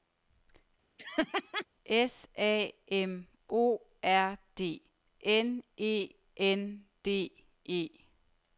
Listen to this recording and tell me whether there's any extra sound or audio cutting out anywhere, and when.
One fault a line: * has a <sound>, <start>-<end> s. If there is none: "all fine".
* has a laugh, 1.0-1.7 s